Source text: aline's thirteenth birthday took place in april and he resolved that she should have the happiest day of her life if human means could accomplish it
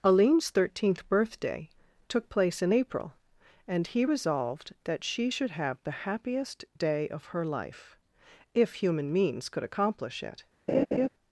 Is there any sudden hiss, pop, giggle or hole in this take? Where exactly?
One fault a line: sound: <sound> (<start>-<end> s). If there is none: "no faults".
sound: laugh (10.7-11.1 s)